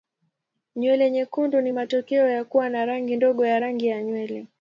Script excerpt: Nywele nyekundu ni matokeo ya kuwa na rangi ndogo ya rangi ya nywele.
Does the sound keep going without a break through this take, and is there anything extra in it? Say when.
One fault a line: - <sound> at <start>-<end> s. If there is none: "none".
none